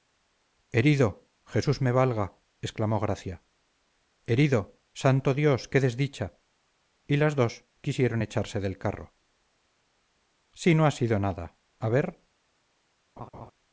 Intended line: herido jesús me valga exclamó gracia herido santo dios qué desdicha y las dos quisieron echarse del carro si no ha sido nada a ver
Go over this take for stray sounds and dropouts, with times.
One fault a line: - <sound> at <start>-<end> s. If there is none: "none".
- laugh at 13.2-13.5 s